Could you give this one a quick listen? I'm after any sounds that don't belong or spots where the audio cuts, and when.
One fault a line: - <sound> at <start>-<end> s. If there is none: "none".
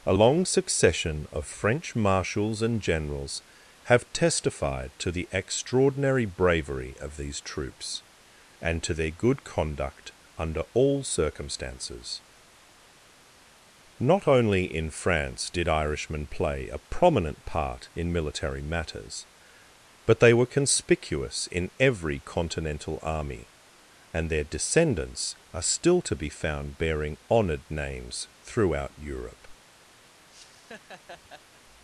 - laugh at 30.3-31.6 s